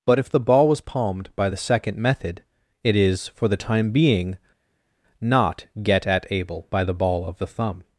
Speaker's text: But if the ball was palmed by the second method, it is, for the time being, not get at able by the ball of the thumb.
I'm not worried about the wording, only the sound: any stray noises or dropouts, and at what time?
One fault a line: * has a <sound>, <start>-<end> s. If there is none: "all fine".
all fine